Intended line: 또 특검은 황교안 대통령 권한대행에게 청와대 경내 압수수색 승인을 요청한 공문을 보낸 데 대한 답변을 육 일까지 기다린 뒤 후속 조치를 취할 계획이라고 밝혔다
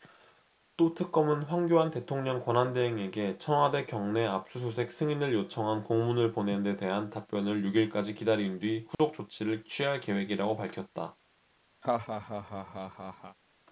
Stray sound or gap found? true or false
true